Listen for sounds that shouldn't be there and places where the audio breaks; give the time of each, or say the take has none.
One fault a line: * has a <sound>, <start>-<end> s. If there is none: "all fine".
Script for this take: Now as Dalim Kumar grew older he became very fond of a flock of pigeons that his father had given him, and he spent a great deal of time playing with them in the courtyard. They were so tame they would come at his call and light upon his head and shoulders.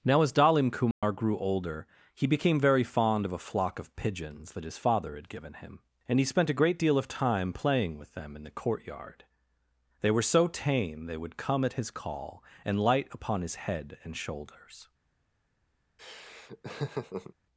* has a dropout, 0.9-1.0 s
* has a laugh, 16.0-17.3 s